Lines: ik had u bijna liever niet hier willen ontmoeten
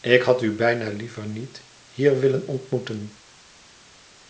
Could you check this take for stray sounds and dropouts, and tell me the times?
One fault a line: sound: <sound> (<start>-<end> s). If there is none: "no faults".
no faults